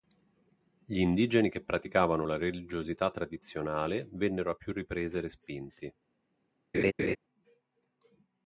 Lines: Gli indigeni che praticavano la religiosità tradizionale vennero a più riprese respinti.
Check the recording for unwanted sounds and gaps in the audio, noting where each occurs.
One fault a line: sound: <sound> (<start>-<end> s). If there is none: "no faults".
sound: laugh (6.7-7.2 s)